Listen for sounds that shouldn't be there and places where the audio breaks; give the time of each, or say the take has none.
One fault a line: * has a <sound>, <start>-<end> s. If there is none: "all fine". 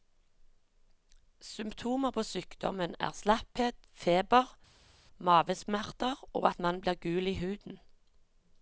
all fine